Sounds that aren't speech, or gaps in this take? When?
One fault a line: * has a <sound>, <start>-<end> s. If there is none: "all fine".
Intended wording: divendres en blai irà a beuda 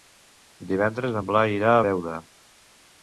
all fine